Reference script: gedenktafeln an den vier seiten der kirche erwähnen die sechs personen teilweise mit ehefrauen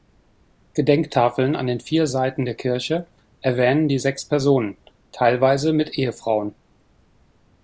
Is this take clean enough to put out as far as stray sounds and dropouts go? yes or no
yes